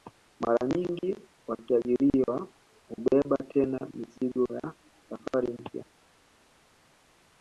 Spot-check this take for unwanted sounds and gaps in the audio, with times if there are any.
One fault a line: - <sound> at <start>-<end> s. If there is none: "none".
none